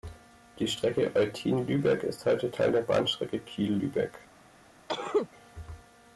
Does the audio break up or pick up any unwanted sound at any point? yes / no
yes